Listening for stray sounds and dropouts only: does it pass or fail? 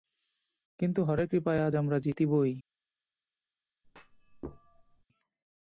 fail